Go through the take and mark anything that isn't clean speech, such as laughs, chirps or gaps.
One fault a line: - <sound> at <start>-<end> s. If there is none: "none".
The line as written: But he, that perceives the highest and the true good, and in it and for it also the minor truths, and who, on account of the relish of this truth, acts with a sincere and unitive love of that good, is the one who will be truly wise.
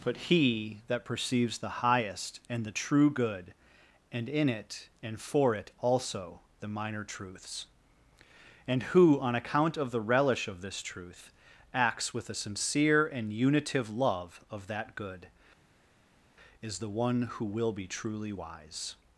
none